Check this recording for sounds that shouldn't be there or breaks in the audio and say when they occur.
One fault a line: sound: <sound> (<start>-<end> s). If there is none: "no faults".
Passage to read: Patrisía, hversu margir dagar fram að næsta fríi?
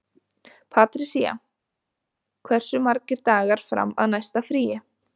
no faults